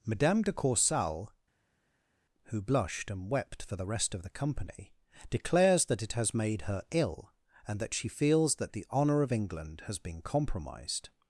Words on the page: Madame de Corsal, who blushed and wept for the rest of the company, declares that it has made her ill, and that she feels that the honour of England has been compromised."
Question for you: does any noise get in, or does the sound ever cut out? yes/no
no